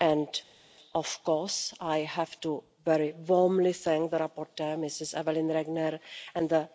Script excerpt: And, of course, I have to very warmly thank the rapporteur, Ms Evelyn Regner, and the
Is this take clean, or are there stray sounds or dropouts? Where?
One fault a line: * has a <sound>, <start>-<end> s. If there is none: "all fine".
all fine